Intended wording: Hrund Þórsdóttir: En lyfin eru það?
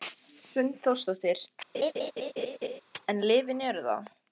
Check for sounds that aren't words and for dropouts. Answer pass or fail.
fail